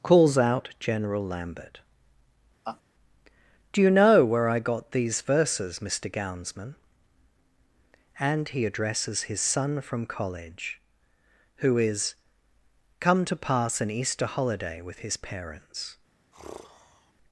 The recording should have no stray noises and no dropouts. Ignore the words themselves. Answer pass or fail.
fail